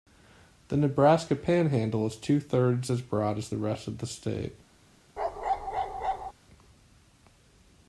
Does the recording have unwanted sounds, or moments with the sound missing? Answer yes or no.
yes